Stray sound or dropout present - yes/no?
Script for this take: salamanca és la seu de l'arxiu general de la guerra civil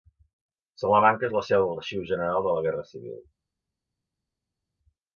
no